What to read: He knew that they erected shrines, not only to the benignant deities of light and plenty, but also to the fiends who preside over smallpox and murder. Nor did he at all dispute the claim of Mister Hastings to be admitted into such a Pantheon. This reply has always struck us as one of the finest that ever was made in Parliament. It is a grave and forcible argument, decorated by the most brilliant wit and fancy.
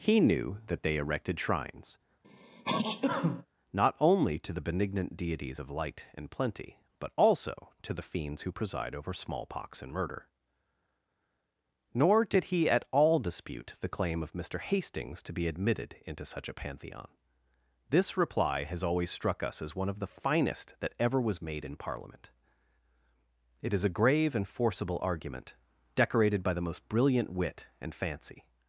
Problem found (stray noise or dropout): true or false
true